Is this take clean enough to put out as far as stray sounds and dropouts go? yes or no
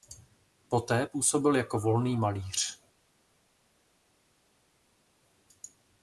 yes